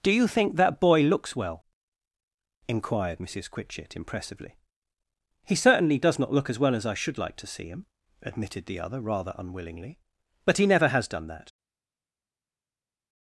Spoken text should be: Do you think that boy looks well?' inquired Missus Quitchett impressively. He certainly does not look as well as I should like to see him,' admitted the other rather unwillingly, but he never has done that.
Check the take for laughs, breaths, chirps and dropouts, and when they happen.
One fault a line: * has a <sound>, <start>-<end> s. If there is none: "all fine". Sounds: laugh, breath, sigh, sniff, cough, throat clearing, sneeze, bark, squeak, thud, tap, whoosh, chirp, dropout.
all fine